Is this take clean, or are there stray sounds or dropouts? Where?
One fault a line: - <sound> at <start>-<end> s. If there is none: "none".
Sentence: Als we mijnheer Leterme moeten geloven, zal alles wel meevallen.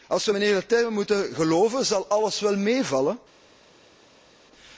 none